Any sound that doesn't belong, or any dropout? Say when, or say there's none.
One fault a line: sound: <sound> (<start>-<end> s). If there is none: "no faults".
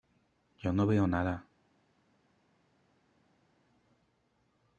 no faults